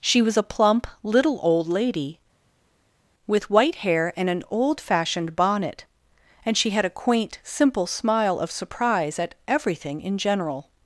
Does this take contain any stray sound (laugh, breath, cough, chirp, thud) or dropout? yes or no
no